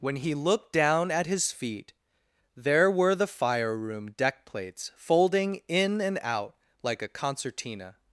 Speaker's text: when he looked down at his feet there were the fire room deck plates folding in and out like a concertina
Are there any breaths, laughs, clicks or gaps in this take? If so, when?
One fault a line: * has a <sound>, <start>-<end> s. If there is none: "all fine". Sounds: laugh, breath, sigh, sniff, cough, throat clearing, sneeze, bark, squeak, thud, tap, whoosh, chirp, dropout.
all fine